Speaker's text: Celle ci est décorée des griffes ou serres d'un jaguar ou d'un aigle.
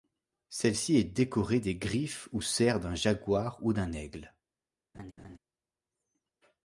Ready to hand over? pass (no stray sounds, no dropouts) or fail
fail